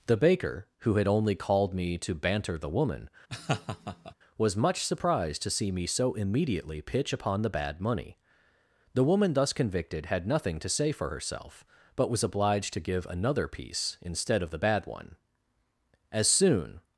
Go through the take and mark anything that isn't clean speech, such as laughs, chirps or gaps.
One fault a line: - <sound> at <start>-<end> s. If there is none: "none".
- laugh at 3.3-4.1 s